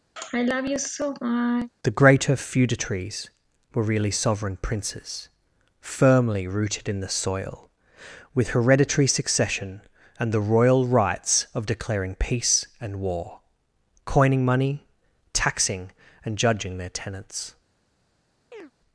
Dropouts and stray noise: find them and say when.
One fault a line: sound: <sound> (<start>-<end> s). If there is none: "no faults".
sound: sigh (0.2-1.7 s)
sound: chirp (18.5-18.7 s)